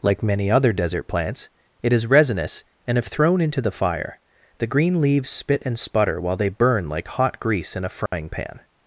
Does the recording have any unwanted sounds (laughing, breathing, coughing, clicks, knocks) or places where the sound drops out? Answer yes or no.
yes